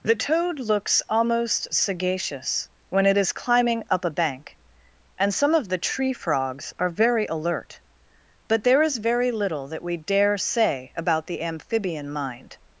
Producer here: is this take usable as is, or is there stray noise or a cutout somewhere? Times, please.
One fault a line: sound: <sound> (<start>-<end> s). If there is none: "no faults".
no faults